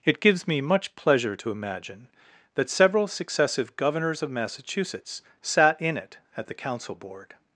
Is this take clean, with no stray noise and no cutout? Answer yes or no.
yes